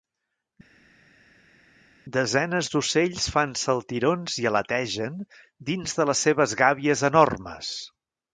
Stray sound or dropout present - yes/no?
no